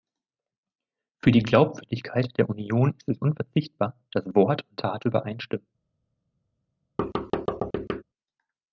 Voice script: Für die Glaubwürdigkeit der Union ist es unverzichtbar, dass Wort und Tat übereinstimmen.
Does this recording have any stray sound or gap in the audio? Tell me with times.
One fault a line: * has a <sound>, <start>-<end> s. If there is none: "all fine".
* has a thud, 7.0-8.0 s